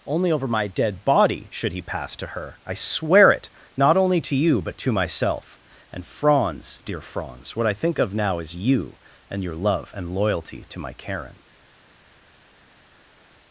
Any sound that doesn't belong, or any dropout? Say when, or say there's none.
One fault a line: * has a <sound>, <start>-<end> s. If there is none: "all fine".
all fine